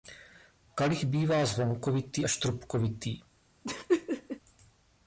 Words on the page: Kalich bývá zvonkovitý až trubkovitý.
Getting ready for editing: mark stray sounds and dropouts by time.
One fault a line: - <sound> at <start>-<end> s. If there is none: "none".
- laugh at 3.6-4.4 s